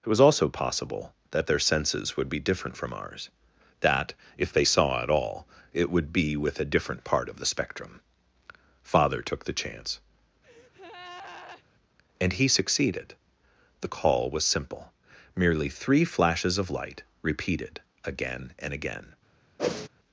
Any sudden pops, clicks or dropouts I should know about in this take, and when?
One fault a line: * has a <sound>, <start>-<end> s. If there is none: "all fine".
* has a breath, 10.4-11.6 s
* has a whoosh, 19.6-19.9 s